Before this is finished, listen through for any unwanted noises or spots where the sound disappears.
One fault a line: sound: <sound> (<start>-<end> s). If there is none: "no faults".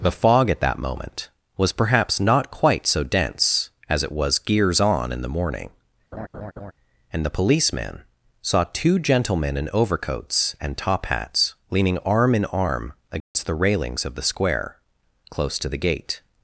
sound: laugh (6.1-6.7 s)
sound: dropout (13.2-13.3 s)